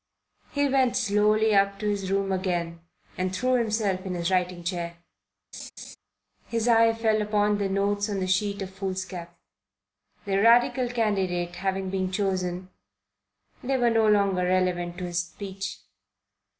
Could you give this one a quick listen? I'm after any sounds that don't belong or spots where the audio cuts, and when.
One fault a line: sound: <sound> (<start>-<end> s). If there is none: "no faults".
sound: laugh (5.5-6.0 s)